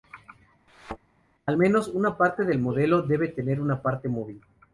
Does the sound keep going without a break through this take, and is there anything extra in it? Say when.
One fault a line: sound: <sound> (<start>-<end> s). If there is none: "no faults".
sound: thud (0.7-1.0 s)